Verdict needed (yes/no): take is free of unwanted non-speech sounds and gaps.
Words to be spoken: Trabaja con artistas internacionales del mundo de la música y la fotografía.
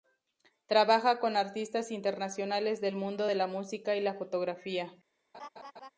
no